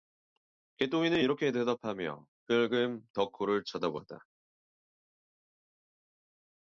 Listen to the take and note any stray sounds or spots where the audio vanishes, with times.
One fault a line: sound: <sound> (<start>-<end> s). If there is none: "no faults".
no faults